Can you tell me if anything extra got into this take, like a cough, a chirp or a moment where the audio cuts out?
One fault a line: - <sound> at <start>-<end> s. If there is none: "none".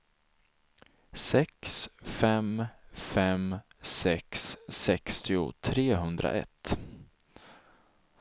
none